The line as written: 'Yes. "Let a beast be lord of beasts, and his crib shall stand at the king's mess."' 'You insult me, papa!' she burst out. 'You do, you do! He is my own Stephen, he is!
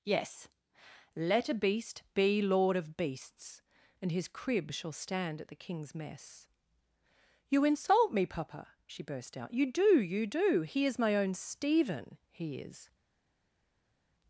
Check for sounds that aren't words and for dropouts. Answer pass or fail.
pass